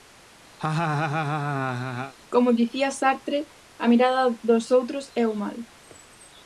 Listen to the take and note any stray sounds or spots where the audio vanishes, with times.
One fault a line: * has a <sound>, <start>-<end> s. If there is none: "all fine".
* has a laugh, 0.6-2.1 s